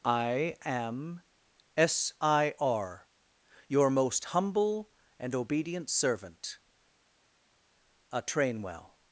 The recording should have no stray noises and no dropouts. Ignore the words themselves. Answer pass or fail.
pass